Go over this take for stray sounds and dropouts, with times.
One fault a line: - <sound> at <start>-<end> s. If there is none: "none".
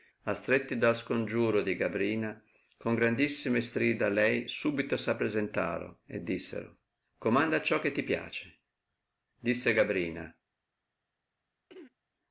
- throat clearing at 11.7-12.0 s